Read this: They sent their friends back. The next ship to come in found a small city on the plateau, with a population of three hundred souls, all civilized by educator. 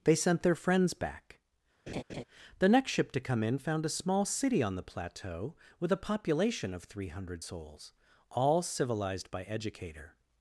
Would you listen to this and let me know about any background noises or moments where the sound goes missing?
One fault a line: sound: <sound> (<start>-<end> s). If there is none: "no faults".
sound: laugh (1.9-2.2 s)